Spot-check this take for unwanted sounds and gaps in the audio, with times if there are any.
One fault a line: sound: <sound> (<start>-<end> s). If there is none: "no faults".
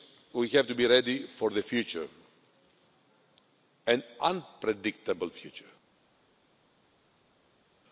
no faults